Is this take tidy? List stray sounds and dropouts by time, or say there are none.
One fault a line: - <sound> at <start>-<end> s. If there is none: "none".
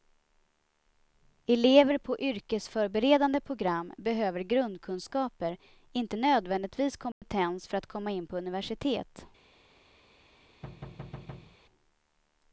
- dropout at 7.1-7.2 s
- thud at 10.6-11.6 s